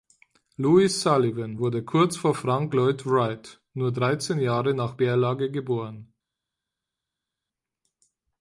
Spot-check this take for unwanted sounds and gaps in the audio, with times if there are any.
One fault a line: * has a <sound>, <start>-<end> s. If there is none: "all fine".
all fine